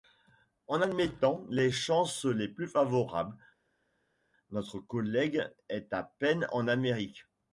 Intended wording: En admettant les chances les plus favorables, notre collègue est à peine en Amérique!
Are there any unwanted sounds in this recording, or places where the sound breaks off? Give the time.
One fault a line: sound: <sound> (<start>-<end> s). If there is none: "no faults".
no faults